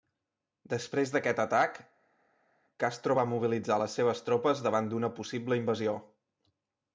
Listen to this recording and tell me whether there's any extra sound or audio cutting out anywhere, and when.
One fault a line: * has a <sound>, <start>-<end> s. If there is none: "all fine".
all fine